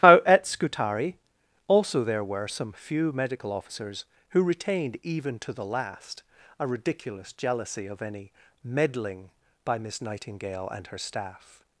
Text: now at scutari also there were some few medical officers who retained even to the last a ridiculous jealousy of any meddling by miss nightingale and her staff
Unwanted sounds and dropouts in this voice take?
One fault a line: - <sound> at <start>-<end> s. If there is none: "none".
none